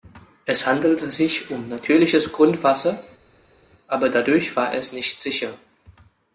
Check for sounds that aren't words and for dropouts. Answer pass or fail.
pass